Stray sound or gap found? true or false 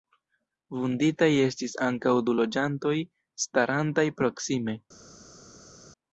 false